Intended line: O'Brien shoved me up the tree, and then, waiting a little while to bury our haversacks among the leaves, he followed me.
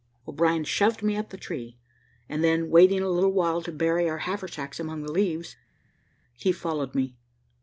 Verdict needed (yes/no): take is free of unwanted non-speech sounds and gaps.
yes